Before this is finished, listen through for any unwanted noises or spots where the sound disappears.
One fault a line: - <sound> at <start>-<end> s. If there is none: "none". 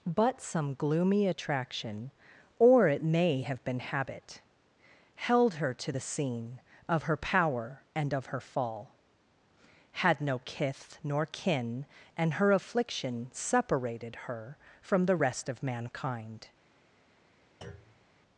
- thud at 17.6-18.1 s